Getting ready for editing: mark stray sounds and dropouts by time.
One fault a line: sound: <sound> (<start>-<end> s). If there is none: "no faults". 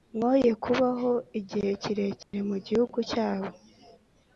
sound: dropout (2.2-2.3 s)